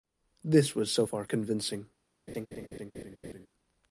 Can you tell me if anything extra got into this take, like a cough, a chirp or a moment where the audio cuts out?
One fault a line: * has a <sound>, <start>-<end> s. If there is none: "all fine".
* has a laugh, 2.3-3.5 s